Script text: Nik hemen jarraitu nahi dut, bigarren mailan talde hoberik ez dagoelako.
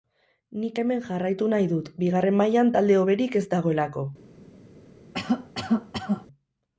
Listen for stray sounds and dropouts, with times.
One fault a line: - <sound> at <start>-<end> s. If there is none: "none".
- cough at 5.1-6.3 s